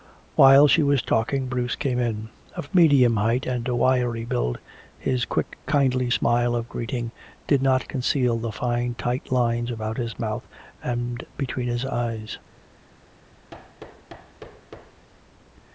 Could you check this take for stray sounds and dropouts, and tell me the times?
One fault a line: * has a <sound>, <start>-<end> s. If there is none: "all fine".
* has a thud, 13.5-15.1 s